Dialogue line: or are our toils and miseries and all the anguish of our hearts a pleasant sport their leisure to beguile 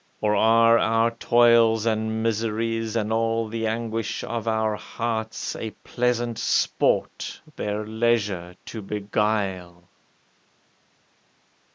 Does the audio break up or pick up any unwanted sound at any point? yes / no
no